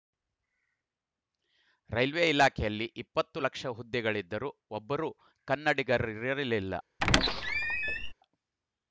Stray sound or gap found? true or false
true